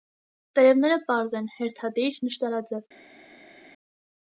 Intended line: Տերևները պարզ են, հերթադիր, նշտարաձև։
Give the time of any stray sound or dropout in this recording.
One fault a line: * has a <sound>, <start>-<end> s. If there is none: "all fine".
all fine